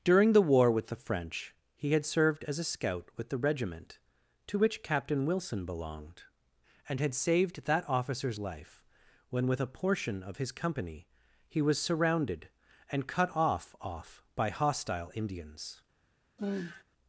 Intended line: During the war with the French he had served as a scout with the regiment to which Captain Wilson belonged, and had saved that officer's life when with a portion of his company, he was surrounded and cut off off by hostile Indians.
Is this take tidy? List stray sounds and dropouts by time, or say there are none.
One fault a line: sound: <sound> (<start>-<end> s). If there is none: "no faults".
sound: sigh (16.4-16.8 s)